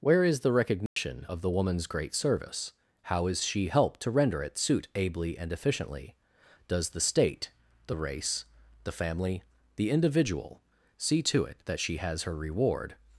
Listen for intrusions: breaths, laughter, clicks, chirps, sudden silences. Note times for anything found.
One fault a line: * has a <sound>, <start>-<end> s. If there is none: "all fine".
* has a dropout, 0.9-1.0 s